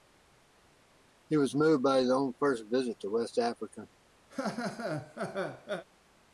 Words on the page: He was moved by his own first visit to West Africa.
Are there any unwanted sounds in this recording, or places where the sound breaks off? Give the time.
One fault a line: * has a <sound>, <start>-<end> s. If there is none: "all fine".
* has a laugh, 4.3-5.8 s